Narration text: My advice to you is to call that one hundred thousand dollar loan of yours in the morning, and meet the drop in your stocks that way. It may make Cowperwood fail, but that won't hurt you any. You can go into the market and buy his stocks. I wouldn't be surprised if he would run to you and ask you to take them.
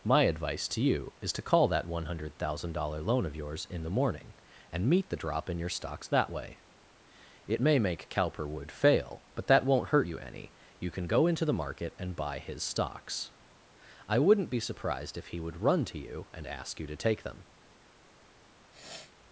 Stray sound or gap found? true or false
true